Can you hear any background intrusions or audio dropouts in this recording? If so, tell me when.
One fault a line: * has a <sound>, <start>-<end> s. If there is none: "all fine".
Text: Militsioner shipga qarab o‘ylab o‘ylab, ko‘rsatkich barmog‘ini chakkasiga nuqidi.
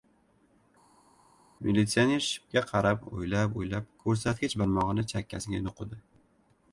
all fine